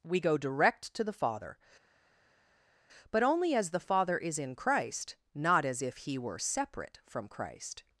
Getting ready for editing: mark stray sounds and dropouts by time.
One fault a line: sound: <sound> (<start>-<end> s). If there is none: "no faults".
no faults